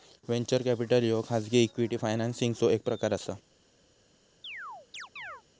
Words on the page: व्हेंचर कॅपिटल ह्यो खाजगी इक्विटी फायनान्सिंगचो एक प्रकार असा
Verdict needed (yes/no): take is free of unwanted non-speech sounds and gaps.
no